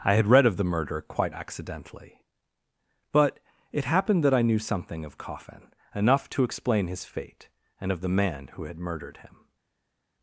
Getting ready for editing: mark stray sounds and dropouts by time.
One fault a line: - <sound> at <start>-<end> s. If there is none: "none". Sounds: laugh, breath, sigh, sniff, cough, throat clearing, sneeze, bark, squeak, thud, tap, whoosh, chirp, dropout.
none